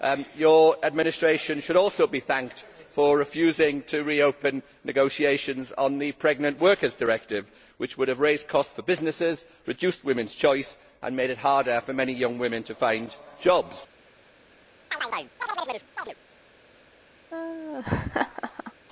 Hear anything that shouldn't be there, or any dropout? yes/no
yes